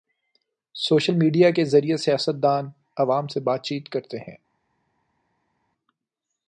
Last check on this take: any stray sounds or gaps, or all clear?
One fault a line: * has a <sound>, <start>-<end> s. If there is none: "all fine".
all fine